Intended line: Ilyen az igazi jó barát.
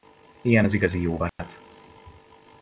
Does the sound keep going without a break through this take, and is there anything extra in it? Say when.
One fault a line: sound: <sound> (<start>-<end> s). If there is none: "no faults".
sound: dropout (1.3-1.4 s)